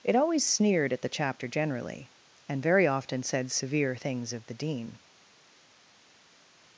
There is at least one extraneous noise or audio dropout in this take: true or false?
false